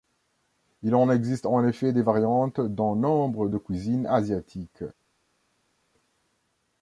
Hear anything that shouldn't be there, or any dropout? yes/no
no